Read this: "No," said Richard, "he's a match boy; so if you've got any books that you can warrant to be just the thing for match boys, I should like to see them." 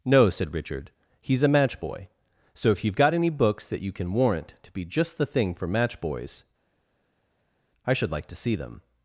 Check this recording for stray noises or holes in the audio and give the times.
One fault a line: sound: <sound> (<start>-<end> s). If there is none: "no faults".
no faults